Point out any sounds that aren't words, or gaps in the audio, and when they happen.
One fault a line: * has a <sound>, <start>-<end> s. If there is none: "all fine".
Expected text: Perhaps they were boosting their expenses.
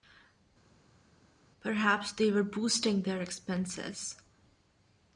all fine